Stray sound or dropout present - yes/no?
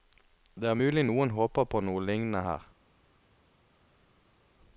no